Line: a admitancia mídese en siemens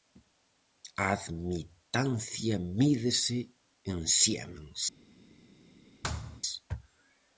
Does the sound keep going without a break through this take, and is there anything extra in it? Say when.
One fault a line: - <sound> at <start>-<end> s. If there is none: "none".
- thud at 6.0-6.4 s